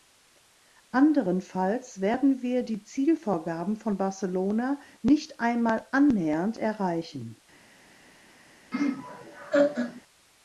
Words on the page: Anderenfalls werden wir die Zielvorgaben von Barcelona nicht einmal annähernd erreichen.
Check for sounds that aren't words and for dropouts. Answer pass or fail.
fail